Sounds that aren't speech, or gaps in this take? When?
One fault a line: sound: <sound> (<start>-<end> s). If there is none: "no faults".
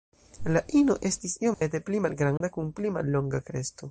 sound: dropout (1.5-1.6 s)
sound: dropout (2.4-2.4 s)